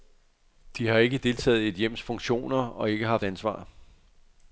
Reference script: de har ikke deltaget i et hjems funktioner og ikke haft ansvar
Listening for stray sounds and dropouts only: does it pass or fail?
pass